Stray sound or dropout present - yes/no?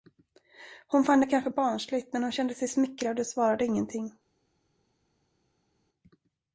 no